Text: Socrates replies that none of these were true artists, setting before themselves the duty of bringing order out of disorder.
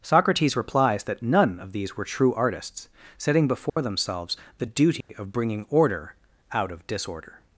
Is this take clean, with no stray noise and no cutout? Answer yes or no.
no